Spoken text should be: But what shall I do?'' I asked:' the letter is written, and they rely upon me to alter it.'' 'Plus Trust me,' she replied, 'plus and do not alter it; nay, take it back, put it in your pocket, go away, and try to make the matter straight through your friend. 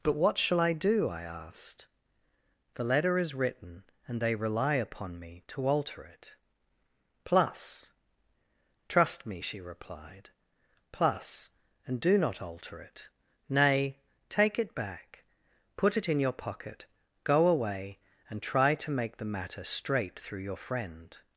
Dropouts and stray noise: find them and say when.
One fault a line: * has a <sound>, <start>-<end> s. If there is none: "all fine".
all fine